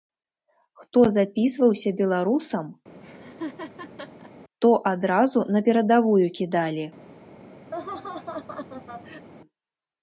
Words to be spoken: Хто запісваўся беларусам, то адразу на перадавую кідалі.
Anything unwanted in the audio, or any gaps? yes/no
yes